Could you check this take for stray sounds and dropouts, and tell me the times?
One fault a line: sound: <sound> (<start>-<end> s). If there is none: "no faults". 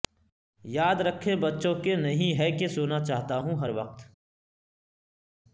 no faults